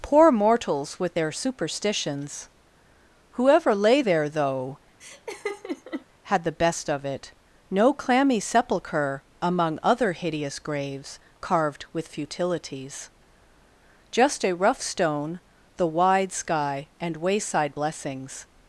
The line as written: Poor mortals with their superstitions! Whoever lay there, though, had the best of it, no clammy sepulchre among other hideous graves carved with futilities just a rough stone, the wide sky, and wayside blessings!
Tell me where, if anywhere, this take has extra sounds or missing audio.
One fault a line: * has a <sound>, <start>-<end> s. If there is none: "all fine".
* has a laugh, 5.0-6.1 s